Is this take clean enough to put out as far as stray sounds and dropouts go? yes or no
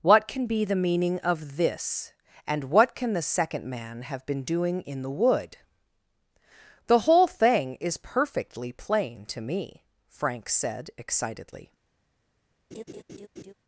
no